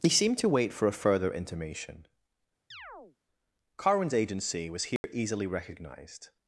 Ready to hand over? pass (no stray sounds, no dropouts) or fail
fail